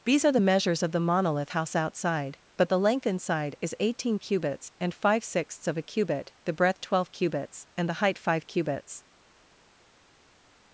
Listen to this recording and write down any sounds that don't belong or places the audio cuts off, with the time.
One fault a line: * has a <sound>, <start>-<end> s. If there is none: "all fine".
all fine